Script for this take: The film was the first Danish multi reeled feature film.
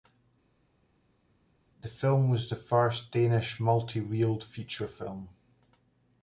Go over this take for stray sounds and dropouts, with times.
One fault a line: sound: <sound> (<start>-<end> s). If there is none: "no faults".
no faults